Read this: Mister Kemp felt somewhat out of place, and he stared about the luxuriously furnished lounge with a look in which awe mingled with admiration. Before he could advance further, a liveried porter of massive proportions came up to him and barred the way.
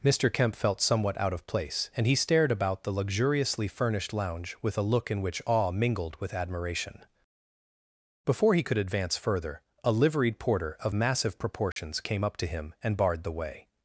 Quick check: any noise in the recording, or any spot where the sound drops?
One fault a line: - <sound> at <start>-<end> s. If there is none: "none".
- dropout at 11.7-11.8 s